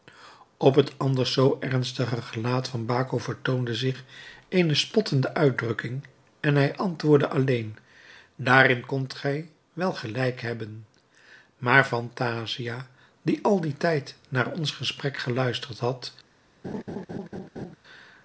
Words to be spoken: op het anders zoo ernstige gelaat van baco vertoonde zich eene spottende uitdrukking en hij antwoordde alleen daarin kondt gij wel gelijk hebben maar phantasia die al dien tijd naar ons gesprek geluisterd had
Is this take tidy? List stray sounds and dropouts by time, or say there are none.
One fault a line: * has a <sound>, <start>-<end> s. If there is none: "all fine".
* has a laugh, 16.6-17.8 s